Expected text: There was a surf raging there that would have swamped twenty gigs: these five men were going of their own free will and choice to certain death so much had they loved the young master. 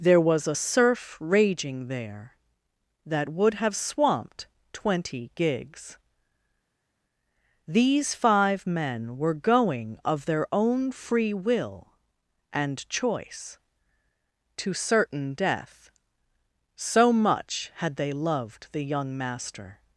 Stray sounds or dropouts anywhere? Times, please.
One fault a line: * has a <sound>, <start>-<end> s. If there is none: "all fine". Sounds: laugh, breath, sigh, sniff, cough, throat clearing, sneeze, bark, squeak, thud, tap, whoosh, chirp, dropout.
all fine